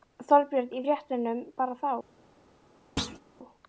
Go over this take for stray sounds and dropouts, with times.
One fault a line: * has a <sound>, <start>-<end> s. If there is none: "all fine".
* has a thud, 3.0-3.2 s